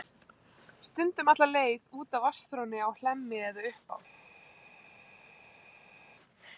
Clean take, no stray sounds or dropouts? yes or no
yes